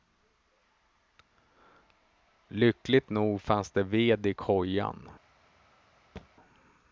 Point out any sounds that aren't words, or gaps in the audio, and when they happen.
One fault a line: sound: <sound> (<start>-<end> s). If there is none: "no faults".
sound: thud (6.2-6.3 s)